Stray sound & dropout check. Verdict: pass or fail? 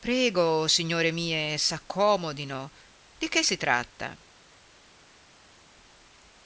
pass